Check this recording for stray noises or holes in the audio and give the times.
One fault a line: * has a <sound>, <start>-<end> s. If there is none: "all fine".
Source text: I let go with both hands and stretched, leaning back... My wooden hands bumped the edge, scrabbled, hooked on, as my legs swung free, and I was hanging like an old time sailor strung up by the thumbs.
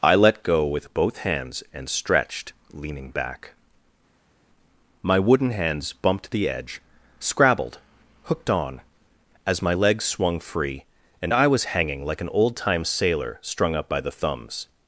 all fine